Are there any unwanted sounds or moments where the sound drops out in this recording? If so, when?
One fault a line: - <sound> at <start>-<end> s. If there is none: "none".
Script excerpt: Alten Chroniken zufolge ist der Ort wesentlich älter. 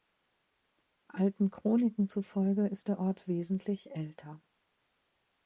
none